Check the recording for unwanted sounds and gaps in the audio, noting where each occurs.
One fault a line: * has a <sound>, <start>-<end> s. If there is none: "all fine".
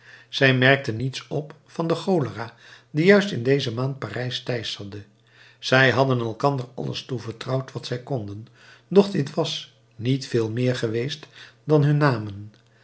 all fine